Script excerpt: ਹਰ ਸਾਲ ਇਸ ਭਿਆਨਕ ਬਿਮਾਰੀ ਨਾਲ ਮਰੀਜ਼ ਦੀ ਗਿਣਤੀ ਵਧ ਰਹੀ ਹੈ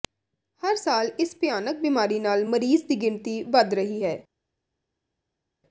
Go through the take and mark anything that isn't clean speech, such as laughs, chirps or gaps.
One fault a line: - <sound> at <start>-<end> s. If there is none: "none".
none